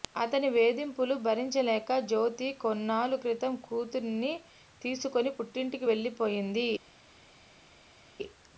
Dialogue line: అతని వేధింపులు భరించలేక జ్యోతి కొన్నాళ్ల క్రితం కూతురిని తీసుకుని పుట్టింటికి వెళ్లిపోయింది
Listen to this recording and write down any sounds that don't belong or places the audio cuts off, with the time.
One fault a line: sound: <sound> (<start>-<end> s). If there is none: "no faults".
no faults